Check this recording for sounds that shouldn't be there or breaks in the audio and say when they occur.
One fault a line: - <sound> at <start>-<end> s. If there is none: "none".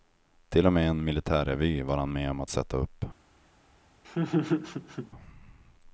- laugh at 4.0-5.1 s